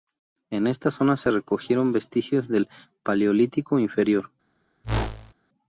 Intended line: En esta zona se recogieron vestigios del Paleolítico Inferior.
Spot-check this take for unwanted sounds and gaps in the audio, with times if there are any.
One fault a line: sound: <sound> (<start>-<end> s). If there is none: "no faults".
sound: whoosh (4.8-5.3 s)